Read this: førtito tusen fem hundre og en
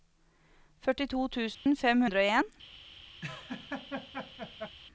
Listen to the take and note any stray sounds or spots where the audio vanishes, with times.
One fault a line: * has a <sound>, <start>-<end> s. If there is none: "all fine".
* has a dropout, 1.5-1.7 s
* has a laugh, 3.2-4.8 s